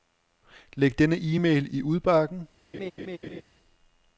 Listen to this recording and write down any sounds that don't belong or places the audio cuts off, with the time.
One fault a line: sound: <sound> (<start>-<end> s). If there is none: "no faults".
sound: laugh (2.7-3.4 s)